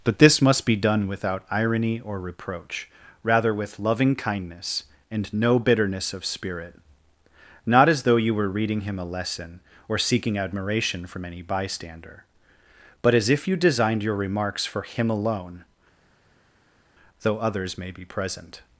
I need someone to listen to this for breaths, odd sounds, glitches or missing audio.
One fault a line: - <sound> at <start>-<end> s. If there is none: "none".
none